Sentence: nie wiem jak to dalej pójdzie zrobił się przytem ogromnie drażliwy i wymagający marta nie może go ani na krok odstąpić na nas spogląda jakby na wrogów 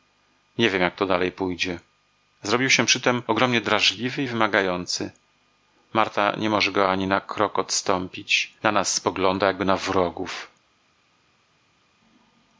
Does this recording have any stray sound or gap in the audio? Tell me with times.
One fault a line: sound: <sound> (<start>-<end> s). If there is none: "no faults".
no faults